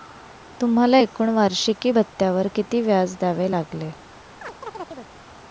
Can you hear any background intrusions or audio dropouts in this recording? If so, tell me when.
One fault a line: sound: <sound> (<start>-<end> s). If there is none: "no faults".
sound: chirp (4.4-5.1 s)